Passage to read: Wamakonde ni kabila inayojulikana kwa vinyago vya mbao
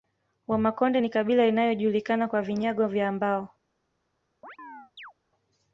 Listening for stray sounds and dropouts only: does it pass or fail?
fail